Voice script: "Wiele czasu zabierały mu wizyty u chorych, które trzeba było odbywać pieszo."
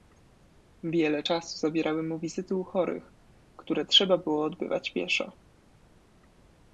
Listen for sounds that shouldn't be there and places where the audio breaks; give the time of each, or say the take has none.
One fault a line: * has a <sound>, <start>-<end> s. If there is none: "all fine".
all fine